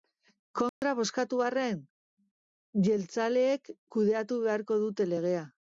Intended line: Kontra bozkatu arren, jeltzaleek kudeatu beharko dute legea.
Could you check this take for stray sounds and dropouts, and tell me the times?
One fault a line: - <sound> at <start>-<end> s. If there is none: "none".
- dropout at 0.7-0.8 s